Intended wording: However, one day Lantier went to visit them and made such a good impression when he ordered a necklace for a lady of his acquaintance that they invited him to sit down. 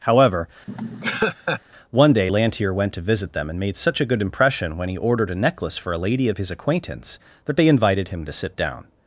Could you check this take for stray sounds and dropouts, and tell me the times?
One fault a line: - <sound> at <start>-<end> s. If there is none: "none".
- laugh at 0.7-1.6 s